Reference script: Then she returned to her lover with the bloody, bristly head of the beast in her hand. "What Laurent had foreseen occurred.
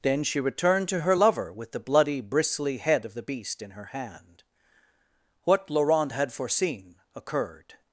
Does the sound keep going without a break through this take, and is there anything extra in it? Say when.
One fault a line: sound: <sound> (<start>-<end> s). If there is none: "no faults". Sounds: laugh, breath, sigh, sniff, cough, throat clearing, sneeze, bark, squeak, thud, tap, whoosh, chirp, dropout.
no faults